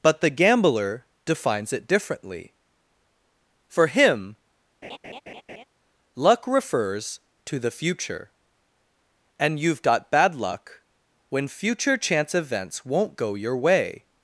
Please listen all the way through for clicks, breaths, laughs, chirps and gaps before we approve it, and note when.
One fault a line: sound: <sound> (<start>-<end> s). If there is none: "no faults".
sound: laugh (4.8-5.6 s)